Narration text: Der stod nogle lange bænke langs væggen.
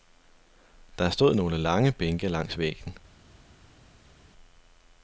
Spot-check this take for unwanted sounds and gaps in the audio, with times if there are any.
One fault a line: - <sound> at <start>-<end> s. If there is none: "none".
none